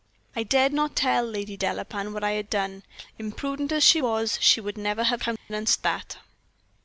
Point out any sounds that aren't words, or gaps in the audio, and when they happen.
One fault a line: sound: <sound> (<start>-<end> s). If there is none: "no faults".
sound: dropout (5.4-5.5 s)